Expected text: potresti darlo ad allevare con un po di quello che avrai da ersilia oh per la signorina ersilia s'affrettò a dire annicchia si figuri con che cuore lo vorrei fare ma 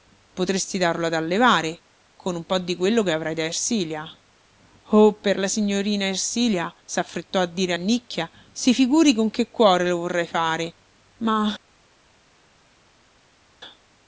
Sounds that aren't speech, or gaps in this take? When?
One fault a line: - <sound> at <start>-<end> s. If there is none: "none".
none